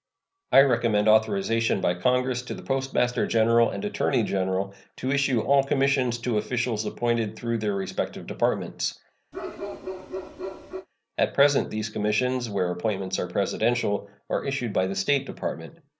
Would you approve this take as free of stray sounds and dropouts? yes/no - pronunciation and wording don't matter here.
no